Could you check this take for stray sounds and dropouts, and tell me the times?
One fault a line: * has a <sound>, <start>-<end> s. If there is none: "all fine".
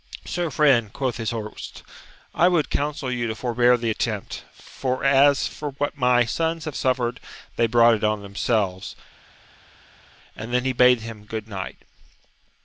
all fine